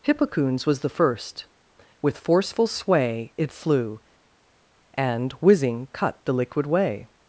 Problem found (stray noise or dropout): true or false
false